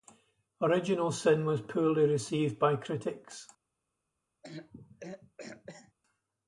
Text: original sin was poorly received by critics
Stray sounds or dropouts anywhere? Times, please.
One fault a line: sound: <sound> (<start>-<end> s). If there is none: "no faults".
sound: throat clearing (4.4-5.9 s)